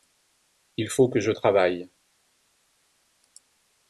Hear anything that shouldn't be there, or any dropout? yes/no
no